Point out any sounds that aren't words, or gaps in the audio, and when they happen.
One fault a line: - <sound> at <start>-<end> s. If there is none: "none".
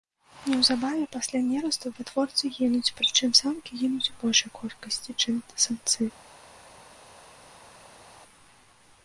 none